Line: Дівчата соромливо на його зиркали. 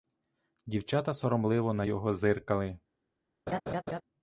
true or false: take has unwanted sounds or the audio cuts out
true